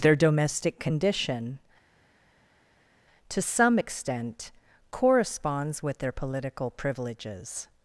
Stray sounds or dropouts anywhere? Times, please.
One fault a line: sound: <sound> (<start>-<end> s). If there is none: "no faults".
no faults